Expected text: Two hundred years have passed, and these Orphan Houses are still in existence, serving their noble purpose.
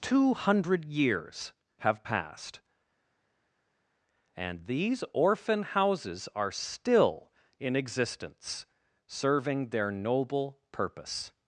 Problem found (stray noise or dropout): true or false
false